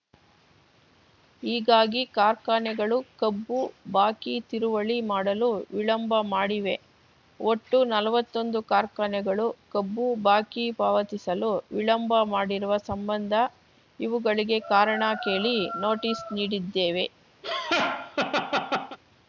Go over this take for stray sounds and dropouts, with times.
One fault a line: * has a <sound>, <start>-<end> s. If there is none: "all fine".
* has a laugh, 17.4-19.0 s